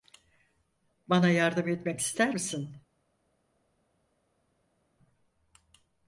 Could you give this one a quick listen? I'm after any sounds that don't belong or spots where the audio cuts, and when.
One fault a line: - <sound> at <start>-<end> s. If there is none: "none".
none